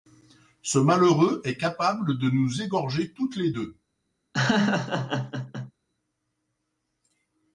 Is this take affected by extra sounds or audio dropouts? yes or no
yes